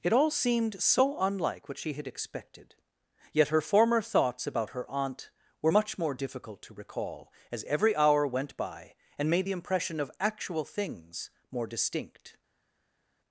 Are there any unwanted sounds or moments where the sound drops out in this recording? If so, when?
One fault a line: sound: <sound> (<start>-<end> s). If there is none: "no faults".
no faults